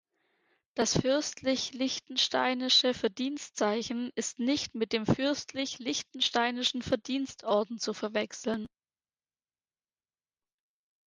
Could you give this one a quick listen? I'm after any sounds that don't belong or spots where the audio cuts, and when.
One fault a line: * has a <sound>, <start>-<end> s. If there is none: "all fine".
all fine